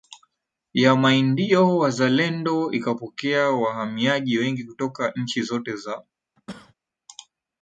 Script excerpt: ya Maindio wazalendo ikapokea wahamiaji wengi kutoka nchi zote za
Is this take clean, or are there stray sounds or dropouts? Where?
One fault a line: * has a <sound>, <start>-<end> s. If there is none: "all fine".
* has a cough, 6.4-6.7 s